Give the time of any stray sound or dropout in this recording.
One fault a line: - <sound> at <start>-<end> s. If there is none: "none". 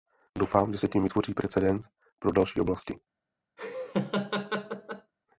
- laugh at 3.6-5.1 s